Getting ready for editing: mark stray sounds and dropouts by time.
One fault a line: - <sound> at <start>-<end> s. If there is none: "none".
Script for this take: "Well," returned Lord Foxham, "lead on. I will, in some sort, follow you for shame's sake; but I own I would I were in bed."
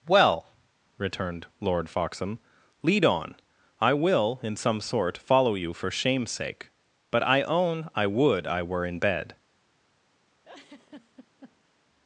- laugh at 10.4-11.7 s